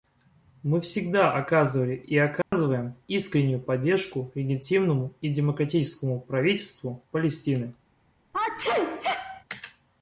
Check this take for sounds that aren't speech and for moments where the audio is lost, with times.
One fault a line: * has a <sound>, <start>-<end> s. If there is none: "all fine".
* has a dropout, 2.4-2.5 s
* has a sneeze, 8.3-9.4 s